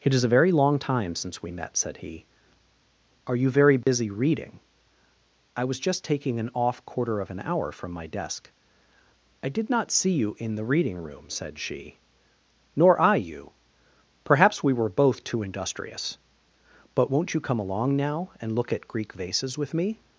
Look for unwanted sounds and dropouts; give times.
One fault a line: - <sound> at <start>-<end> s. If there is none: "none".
- dropout at 3.8-3.9 s